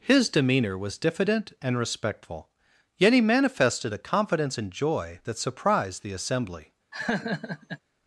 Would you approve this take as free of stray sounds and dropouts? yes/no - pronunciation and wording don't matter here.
no